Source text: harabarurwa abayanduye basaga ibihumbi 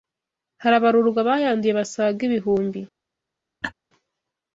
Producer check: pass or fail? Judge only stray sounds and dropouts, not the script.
fail